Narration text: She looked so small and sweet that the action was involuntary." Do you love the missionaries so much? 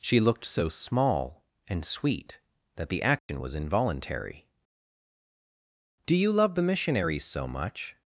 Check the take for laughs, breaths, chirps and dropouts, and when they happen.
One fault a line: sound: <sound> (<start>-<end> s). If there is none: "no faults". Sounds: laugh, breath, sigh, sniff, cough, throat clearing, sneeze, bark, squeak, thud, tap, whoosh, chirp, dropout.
sound: dropout (3.2-3.3 s)